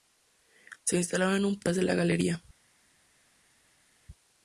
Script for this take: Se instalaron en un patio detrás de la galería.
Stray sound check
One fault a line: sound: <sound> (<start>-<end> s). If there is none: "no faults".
no faults